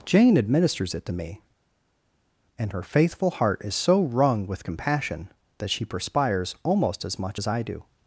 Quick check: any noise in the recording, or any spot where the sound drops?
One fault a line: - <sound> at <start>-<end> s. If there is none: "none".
none